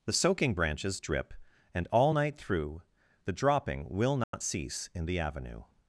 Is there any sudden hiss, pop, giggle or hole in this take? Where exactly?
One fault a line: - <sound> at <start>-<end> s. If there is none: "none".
- dropout at 4.2-4.3 s